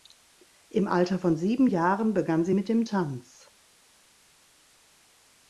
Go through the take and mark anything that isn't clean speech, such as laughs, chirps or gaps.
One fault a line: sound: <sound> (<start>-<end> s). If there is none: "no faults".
no faults